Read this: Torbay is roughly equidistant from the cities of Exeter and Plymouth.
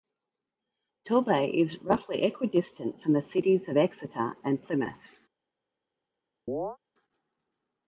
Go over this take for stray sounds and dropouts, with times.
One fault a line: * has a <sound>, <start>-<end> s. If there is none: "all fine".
* has a chirp, 6.5-6.8 s